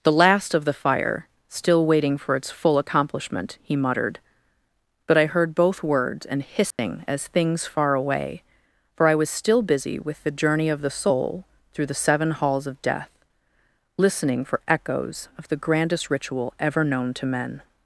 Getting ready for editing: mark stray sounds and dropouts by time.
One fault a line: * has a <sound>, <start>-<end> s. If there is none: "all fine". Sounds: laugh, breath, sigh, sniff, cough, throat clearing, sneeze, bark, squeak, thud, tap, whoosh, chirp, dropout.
* has a dropout, 6.7-6.8 s